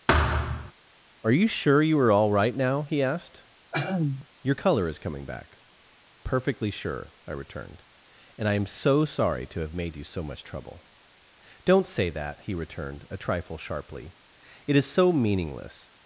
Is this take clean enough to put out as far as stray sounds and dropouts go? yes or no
no